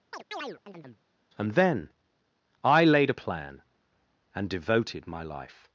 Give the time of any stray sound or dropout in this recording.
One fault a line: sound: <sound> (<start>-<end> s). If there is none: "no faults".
sound: chirp (0.1-1.0 s)